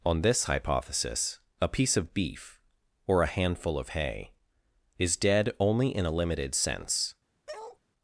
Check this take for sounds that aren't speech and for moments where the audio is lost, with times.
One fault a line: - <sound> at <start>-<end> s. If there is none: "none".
- bark at 7.5-7.8 s